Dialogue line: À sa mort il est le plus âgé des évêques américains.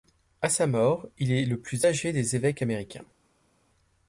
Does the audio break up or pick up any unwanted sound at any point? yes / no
no